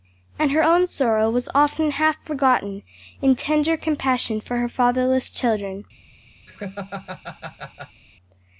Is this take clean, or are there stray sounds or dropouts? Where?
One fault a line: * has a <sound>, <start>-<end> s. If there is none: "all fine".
* has a laugh, 6.5-8.0 s